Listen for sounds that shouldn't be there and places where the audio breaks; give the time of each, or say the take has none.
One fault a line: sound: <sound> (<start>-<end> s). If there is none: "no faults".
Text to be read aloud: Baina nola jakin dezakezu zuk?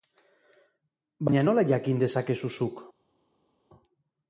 no faults